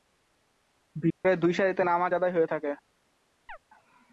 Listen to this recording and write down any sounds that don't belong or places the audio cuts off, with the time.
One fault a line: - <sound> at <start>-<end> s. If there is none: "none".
- dropout at 1.1-1.2 s
- chirp at 3.5-3.6 s